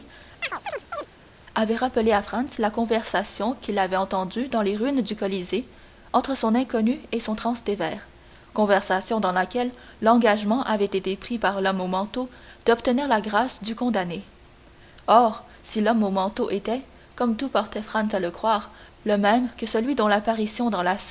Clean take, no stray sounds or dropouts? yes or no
no